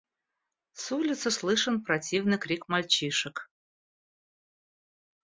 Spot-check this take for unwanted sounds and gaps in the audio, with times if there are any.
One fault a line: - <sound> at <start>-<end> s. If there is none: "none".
none